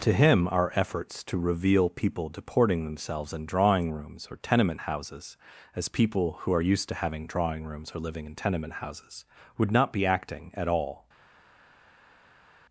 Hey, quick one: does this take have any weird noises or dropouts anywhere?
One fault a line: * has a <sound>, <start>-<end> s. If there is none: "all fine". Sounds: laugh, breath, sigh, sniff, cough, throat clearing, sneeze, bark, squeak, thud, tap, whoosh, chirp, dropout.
all fine